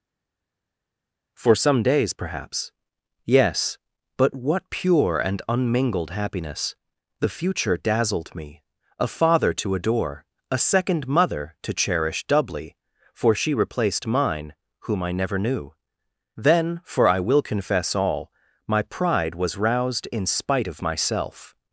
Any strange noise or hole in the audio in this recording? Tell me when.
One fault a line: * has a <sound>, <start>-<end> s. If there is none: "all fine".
all fine